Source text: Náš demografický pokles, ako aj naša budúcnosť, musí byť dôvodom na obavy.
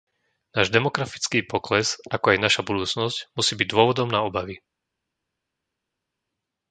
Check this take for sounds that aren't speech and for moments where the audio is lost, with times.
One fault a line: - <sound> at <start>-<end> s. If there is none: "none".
none